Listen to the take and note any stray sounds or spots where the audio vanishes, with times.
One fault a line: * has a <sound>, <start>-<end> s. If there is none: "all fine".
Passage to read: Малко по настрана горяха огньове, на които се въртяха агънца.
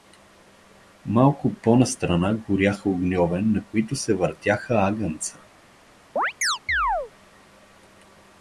* has a chirp, 6.2-7.1 s